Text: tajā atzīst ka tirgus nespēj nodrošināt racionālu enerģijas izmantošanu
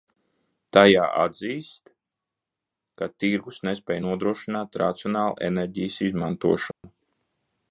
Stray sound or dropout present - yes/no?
yes